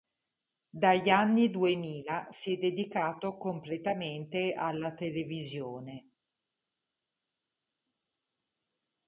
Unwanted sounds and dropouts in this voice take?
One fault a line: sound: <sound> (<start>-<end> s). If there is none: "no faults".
no faults